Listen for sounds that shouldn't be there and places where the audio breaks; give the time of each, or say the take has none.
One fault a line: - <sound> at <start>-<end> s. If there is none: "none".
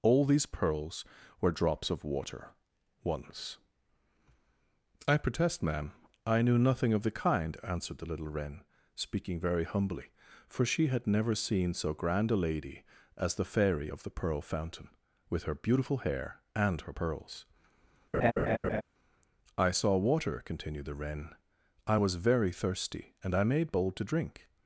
- laugh at 18.1-18.8 s